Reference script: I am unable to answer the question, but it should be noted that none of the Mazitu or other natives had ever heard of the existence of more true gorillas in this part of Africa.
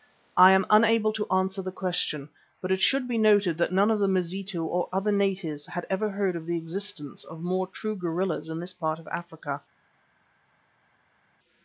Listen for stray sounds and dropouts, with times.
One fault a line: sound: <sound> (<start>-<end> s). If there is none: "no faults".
no faults